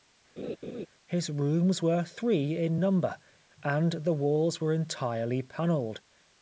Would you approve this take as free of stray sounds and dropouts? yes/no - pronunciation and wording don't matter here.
no